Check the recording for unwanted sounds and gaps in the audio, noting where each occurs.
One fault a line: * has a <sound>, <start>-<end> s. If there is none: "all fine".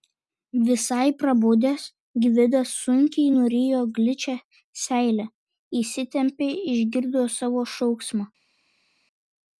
all fine